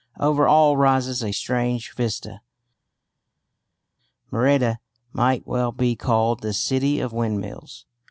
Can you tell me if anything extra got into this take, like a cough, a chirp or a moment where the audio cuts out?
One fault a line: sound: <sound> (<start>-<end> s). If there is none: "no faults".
no faults